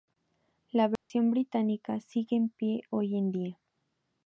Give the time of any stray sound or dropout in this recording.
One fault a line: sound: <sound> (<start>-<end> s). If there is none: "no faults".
sound: dropout (1.0-1.1 s)